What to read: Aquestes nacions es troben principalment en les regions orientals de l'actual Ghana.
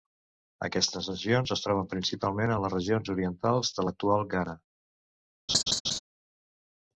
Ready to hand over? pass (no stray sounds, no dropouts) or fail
fail